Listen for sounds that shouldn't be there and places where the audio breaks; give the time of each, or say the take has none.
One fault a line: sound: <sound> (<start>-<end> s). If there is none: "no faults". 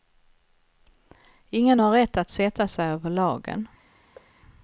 sound: thud (4.2-4.3 s)